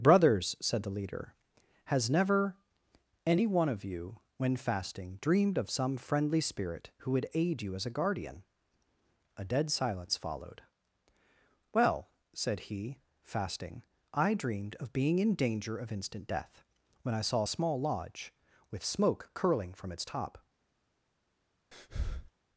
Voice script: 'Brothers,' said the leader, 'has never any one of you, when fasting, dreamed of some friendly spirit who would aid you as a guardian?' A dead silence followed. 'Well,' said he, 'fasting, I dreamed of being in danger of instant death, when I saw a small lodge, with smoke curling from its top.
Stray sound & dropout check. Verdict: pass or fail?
fail